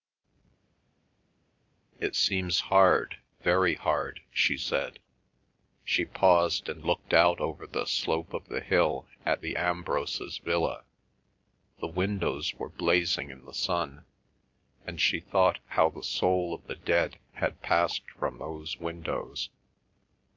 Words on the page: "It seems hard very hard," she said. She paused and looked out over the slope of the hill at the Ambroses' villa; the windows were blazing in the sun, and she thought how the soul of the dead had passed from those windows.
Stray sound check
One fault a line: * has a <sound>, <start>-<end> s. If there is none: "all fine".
all fine